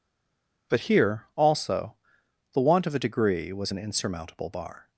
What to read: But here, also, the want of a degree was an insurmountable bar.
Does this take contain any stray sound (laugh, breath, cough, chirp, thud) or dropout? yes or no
no